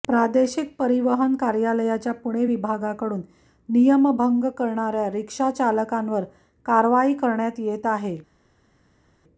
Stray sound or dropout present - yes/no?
no